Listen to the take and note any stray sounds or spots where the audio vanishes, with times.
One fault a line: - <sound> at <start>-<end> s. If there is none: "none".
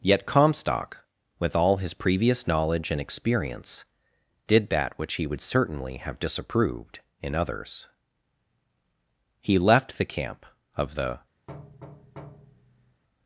- thud at 11.5-13.0 s